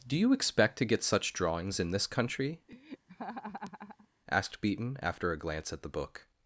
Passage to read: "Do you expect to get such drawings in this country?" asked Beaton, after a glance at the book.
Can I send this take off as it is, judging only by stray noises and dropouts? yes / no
no